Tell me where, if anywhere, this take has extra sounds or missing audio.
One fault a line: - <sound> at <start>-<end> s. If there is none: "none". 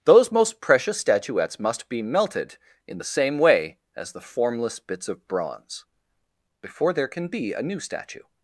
none